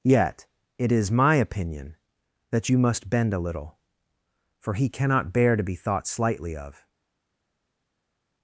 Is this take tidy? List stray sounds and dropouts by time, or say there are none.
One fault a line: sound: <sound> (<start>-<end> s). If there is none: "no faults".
no faults